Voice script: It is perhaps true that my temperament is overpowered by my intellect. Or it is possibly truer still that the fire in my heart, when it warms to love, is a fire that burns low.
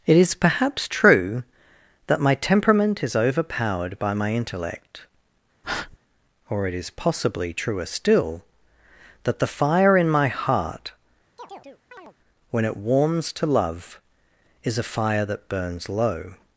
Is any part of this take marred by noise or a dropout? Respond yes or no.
yes